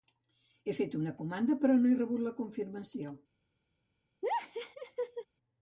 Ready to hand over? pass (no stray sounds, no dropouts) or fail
fail